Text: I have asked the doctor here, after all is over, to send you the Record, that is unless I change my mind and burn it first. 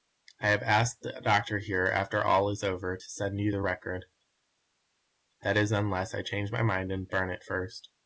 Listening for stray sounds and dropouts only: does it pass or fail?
pass